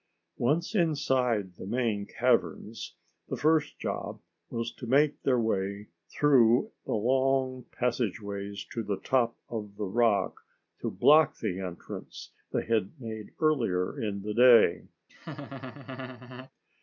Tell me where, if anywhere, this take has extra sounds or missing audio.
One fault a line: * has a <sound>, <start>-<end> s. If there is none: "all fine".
* has a laugh, 15.1-16.5 s